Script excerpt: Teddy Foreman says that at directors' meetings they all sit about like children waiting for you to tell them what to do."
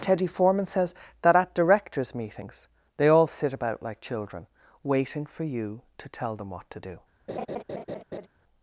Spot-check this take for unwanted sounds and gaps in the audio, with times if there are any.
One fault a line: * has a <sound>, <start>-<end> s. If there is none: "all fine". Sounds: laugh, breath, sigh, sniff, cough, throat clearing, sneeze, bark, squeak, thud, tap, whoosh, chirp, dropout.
* has a laugh, 7.3-8.3 s